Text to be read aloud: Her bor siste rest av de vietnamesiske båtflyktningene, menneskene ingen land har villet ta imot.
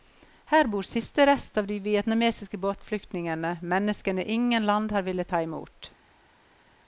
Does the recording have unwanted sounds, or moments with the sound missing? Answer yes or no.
no